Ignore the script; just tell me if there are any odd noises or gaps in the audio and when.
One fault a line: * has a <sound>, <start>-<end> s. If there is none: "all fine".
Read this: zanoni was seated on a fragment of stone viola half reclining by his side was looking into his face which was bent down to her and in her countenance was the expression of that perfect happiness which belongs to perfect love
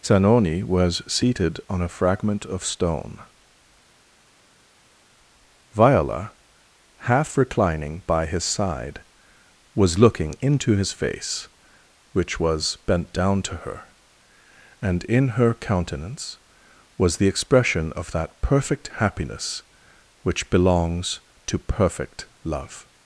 all fine